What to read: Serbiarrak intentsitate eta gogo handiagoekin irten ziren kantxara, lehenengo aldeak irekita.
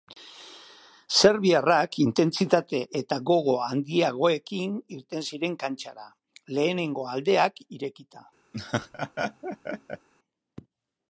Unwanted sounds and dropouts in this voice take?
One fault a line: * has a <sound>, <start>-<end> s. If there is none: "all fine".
* has a laugh, 8.5-10.1 s